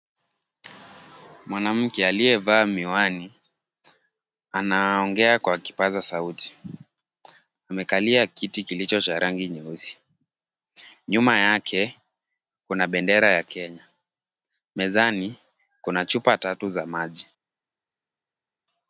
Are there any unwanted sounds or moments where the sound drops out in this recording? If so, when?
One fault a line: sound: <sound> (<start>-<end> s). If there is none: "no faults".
no faults